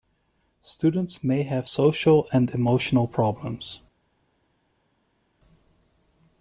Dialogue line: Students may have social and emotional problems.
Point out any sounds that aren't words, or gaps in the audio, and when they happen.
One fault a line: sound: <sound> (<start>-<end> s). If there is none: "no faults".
no faults